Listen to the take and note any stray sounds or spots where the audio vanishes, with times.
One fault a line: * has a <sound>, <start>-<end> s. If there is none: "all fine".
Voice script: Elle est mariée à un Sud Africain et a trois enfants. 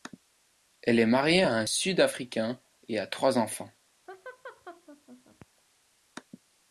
* has a laugh, 4.1-5.5 s